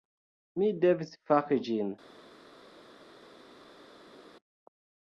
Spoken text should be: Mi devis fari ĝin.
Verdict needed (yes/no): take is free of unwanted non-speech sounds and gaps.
yes